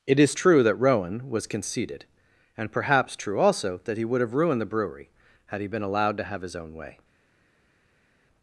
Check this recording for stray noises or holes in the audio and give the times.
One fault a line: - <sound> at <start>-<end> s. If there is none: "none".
none